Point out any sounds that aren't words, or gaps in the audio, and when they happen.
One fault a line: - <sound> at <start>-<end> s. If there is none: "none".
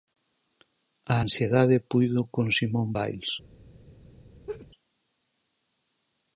- laugh at 4.5-4.7 s